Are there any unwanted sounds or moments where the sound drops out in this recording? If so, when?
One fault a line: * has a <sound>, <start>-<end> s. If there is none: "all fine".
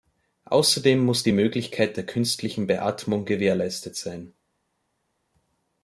all fine